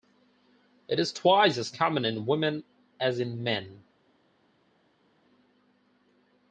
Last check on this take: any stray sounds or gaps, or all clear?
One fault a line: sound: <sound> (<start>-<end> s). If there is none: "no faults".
no faults